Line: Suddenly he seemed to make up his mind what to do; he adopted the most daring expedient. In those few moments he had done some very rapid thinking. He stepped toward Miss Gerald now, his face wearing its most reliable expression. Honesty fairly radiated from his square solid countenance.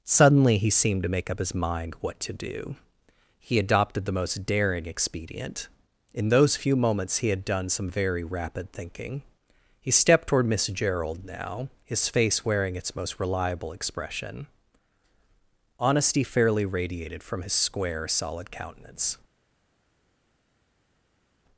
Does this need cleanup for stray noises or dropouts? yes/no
no